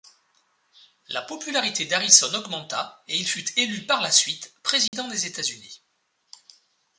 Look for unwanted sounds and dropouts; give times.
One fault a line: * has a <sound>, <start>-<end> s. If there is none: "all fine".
* has a dropout, 4.9-4.9 s